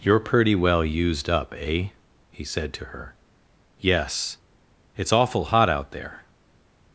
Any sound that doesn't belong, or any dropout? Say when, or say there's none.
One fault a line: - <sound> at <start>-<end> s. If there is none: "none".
none